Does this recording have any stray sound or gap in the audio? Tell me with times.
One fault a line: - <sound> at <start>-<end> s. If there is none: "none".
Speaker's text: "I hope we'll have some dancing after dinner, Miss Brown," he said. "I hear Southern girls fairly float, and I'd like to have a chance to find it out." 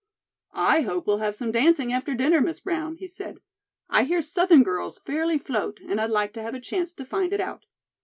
none